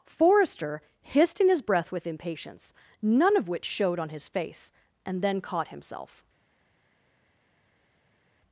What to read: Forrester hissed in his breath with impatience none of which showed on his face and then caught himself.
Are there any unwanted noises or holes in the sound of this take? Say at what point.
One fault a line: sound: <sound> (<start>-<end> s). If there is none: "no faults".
no faults